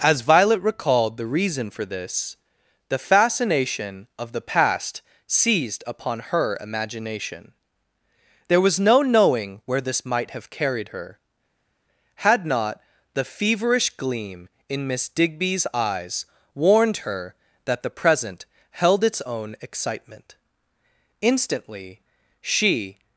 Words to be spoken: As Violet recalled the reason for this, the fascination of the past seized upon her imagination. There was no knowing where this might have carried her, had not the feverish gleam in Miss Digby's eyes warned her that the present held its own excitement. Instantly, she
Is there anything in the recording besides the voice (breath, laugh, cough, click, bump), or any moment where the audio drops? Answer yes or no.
no